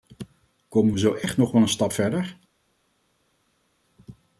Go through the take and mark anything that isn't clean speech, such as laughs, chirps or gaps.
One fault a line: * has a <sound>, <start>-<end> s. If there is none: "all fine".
all fine